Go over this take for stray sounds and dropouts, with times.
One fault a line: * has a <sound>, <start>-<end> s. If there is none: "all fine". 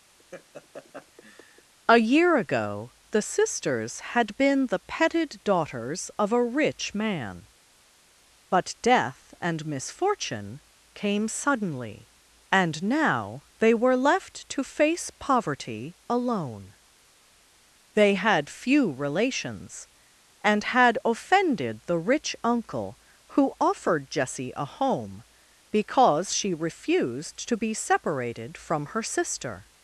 * has a laugh, 0.2-1.7 s